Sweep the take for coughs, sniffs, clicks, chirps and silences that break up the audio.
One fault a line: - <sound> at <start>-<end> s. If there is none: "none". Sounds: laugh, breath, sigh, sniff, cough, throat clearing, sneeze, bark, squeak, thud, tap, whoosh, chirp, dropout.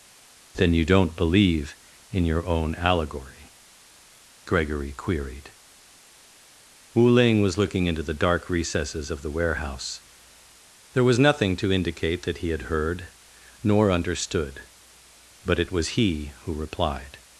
none